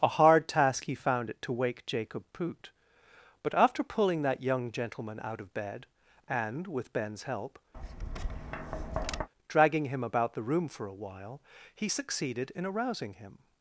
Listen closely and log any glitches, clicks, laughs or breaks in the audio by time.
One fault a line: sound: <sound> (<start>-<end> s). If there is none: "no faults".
sound: tap (7.7-9.3 s)